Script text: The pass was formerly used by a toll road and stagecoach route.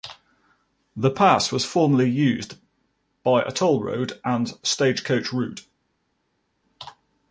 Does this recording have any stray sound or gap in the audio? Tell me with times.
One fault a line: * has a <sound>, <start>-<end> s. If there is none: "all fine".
all fine